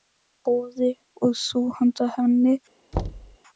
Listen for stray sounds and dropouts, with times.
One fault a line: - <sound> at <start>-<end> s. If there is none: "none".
- thud at 2.9-3.4 s